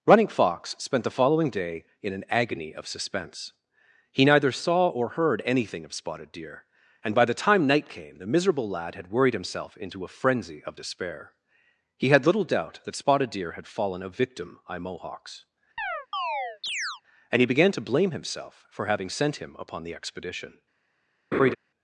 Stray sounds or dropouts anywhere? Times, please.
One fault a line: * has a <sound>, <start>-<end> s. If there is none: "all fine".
* has a chirp, 15.8-17.0 s
* has a laugh, 21.3-21.6 s